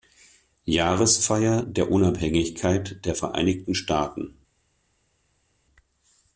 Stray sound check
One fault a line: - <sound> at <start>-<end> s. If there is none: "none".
none